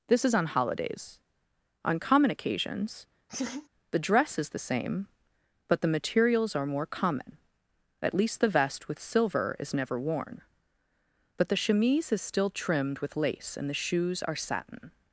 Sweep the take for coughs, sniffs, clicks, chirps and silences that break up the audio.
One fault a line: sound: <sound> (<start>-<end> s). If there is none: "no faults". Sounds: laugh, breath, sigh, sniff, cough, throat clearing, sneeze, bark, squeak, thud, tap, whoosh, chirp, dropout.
sound: laugh (3.3-3.7 s)